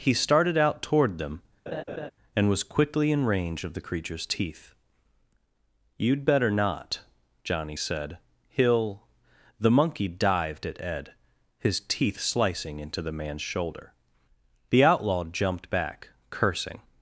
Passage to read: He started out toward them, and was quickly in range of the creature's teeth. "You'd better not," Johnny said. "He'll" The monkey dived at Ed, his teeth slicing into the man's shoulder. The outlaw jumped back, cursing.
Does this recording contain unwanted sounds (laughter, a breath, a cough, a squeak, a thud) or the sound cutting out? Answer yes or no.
yes